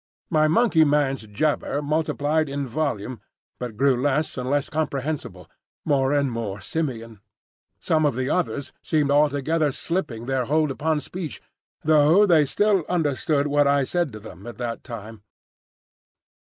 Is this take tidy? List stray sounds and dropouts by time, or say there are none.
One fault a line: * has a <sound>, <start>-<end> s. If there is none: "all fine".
all fine